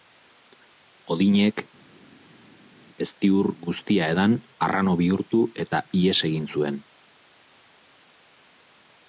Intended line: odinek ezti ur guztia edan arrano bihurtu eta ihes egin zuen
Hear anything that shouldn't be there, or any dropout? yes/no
no